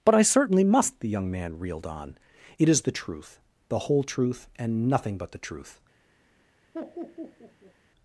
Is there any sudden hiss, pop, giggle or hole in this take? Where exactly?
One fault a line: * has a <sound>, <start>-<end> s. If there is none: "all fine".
* has a laugh, 6.7-7.7 s